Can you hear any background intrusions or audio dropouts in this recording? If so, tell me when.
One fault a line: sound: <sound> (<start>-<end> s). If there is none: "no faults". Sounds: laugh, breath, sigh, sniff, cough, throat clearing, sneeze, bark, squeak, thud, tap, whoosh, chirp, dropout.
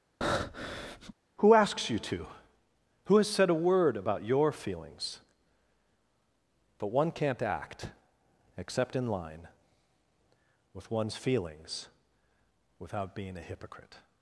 sound: breath (0.2-1.1 s)